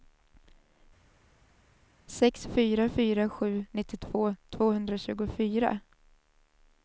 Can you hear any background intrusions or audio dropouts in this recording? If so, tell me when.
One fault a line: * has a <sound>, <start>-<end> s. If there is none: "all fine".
all fine